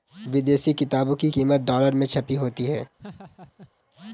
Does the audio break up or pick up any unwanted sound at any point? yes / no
yes